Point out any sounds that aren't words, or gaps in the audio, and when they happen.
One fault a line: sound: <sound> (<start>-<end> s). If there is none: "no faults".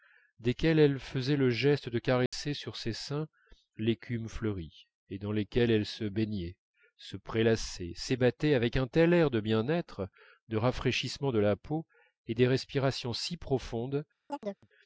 sound: dropout (2.3-2.3 s)
sound: chirp (14.3-14.7 s)